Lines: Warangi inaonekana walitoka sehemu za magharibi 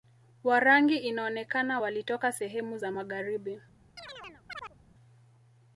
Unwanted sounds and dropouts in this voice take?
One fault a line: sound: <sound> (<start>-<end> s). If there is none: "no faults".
sound: chirp (4.0-4.8 s)